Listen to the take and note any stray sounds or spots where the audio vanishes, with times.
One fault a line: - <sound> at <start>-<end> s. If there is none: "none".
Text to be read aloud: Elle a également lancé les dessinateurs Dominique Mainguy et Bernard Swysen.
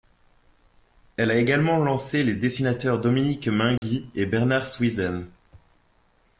- dropout at 3.8-3.8 s